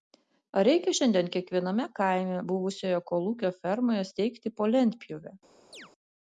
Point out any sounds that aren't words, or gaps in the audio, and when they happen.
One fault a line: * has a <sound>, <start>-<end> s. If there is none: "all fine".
* has a chirp, 5.7-5.9 s